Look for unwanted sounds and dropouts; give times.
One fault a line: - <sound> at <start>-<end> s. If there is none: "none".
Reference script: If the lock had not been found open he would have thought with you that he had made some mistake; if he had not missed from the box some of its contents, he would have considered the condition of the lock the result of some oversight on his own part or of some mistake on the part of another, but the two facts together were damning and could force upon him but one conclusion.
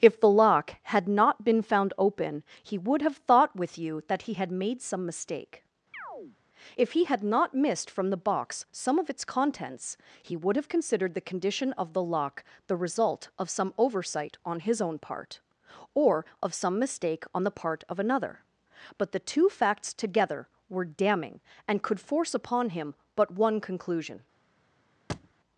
- chirp at 5.9-6.4 s
- thud at 25.1-25.3 s